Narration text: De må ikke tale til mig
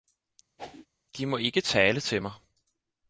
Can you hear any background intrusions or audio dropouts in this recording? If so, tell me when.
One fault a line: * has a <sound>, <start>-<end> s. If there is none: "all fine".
* has a whoosh, 0.6-0.9 s